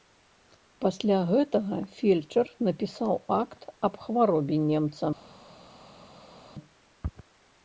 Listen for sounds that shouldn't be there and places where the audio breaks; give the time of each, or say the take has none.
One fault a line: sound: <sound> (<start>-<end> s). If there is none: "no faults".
no faults